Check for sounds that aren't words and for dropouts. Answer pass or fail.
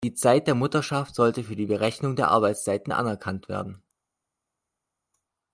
pass